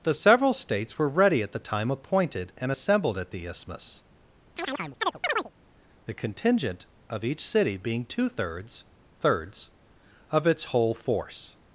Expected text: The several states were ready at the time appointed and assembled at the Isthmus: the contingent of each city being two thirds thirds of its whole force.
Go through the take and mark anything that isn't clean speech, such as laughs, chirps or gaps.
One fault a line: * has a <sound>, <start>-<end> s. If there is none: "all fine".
* has a chirp, 4.6-5.5 s